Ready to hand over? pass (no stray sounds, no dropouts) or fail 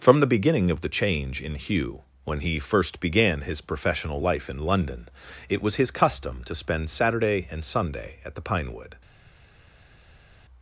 pass